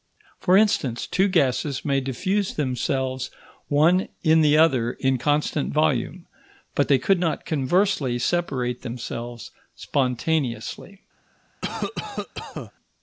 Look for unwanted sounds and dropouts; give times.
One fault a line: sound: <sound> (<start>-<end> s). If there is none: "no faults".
sound: cough (11.6-12.7 s)